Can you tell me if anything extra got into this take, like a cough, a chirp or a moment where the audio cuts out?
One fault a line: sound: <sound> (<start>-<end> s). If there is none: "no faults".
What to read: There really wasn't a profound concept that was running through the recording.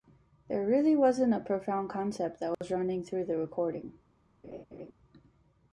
sound: dropout (2.5-2.6 s)
sound: laugh (4.4-4.9 s)